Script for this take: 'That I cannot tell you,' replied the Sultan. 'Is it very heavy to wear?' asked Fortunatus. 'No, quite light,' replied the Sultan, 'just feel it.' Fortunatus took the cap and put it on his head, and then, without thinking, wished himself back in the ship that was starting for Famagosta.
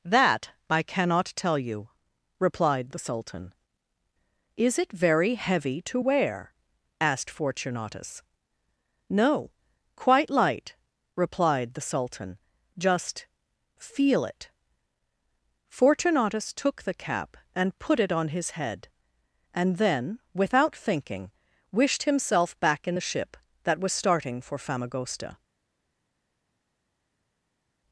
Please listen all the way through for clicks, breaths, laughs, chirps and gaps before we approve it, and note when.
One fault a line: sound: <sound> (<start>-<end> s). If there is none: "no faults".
no faults